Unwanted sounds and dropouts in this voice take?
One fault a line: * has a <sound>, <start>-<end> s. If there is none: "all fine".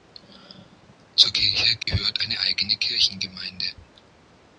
* has a dropout, 1.8-1.9 s